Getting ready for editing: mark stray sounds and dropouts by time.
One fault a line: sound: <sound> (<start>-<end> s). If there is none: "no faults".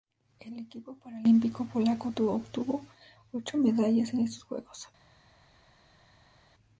no faults